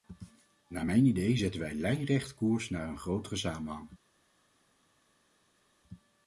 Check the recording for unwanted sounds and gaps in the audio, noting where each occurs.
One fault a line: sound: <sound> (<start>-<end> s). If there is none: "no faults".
no faults